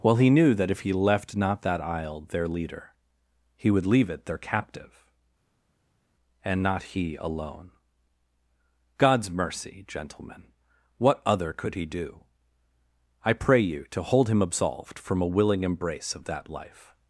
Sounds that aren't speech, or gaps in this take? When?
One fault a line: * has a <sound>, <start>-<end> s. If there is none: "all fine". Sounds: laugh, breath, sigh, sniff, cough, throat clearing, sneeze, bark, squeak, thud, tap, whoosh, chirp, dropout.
all fine